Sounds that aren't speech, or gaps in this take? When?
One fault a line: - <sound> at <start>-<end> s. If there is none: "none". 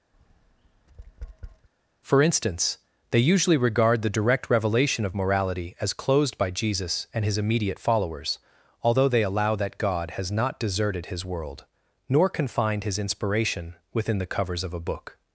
- tap at 0.1-1.7 s